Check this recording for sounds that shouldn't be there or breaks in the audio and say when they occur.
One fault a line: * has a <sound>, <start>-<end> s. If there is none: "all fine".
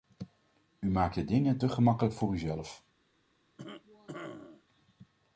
* has a cough, 3.6-4.6 s